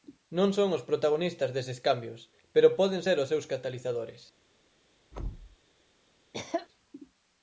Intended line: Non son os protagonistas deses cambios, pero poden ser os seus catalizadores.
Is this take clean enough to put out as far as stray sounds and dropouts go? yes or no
no